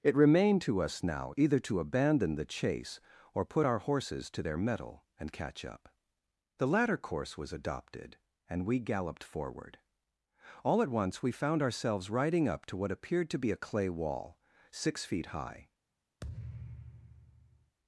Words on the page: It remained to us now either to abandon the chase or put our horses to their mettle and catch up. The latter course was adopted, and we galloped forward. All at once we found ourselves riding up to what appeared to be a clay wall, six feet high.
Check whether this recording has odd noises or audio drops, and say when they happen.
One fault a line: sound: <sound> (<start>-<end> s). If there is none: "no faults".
sound: thud (16.2-17.8 s)